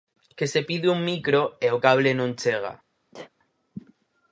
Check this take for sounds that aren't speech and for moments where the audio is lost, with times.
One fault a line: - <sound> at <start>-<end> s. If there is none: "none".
- sneeze at 3.1-3.3 s